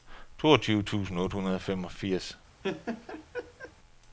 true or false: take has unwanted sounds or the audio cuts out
true